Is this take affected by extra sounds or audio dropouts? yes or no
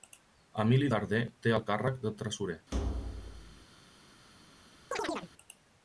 yes